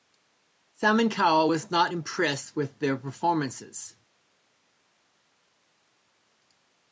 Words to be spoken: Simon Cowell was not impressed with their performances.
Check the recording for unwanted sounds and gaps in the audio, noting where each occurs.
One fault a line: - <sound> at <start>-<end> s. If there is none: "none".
none